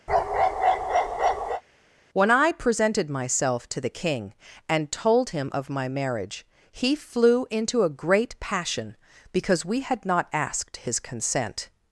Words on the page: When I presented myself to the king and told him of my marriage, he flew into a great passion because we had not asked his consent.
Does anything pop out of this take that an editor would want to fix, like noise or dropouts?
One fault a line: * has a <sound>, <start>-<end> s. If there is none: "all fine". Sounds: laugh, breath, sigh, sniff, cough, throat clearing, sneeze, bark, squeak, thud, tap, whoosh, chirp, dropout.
* has a bark, 0.1-1.6 s